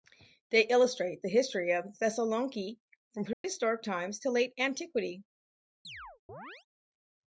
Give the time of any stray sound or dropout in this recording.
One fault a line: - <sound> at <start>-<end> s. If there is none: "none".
- dropout at 3.3-3.4 s
- chirp at 5.8-6.7 s